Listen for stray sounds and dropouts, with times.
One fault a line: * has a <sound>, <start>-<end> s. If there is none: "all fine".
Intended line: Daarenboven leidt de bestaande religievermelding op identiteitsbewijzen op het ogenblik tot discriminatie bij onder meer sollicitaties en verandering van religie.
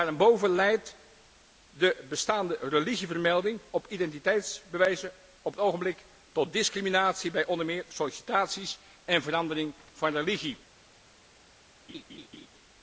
* has a laugh, 11.9-12.5 s